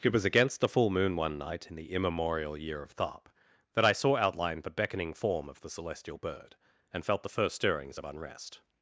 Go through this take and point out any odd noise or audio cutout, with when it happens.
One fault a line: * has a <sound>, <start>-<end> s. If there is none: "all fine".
all fine